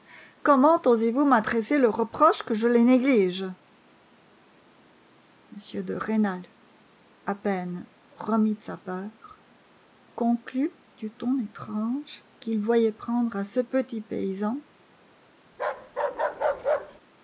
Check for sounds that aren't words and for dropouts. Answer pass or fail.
fail